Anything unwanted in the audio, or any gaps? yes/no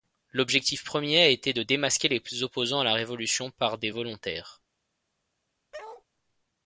yes